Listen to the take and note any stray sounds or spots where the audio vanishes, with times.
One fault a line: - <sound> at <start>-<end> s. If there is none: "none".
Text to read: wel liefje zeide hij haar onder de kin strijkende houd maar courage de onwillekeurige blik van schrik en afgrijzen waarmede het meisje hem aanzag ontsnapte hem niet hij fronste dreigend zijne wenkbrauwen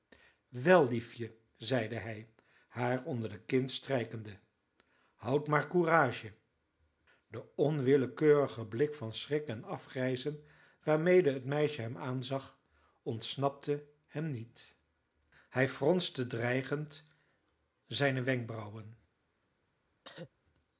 - cough at 20.0-20.3 s